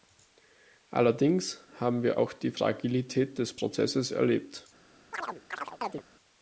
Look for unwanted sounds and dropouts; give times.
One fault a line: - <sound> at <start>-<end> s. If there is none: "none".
- chirp at 5.1-6.0 s